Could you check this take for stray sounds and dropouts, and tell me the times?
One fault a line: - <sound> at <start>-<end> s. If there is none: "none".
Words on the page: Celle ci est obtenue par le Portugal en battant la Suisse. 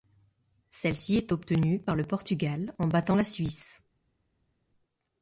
none